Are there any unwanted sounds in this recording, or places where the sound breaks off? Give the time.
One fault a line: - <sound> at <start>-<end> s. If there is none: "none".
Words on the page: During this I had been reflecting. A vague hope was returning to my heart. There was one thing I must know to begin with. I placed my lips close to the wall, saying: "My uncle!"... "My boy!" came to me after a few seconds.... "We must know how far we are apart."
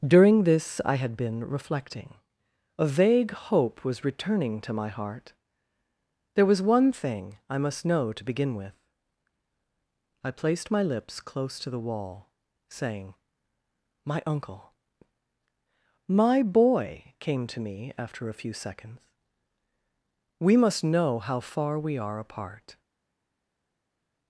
none